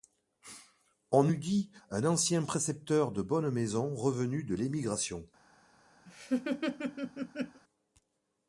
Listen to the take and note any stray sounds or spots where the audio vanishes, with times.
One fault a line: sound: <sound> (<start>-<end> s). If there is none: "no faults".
sound: laugh (6.1-7.6 s)